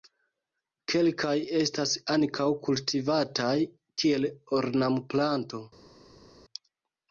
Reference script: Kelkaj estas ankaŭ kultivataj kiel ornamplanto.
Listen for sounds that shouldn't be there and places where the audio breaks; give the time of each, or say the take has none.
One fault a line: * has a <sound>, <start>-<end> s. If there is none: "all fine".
all fine